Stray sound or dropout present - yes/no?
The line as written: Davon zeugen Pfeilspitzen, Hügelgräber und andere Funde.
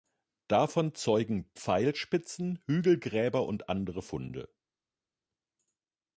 no